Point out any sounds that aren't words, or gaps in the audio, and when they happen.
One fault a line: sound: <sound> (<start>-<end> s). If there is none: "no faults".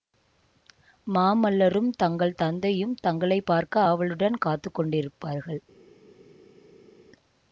no faults